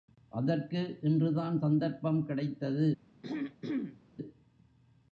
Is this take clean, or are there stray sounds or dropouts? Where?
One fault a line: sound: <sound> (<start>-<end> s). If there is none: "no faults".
sound: throat clearing (3.2-4.0 s)